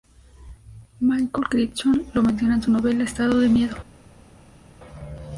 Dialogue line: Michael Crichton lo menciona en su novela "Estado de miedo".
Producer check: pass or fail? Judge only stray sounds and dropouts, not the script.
pass